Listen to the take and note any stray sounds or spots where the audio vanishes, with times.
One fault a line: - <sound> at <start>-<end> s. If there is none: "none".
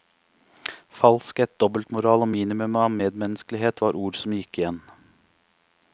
none